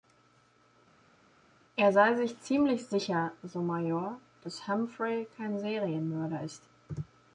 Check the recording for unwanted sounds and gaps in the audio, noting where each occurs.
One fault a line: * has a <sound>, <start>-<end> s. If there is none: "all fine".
all fine